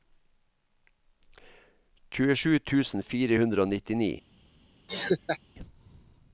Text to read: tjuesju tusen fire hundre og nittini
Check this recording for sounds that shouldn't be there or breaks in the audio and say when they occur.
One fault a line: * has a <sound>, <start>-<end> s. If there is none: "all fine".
* has a laugh, 4.9-5.4 s